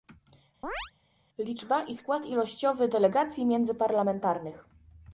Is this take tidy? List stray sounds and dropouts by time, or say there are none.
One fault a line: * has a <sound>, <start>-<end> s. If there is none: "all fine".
* has a chirp, 0.6-0.9 s